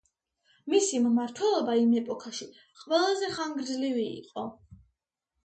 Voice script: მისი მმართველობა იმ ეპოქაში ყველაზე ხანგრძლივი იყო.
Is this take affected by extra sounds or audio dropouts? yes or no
no